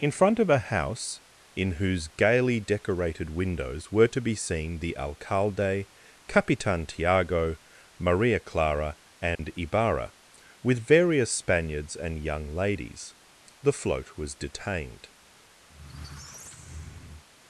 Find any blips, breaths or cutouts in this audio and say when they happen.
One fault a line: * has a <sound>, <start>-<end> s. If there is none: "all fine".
* has a dropout, 9.4-9.4 s
* has a squeak, 15.7-17.2 s